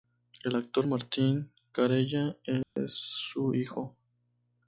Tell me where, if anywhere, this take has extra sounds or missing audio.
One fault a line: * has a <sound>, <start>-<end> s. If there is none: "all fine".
* has a dropout, 2.6-2.8 s